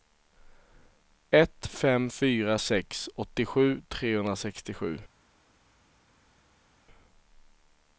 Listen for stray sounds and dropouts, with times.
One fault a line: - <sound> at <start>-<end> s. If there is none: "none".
none